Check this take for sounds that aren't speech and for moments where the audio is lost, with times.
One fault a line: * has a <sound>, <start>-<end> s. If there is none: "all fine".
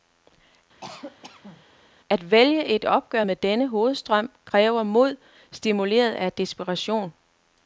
* has a cough, 0.8-1.6 s